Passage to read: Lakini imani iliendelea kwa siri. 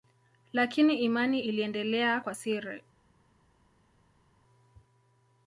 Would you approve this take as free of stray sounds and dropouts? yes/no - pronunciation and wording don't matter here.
yes